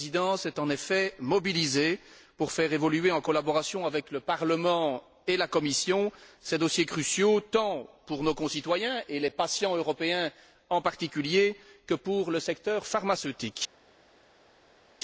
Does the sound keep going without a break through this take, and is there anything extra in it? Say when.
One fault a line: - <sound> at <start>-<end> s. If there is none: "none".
none